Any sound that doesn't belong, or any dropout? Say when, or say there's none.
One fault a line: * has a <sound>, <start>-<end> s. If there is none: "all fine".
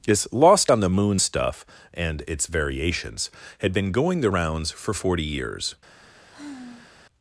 * has a sigh, 6.3-6.9 s